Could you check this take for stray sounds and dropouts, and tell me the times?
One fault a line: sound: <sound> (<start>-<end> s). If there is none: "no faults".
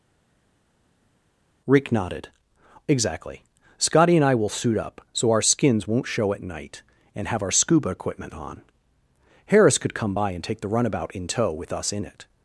no faults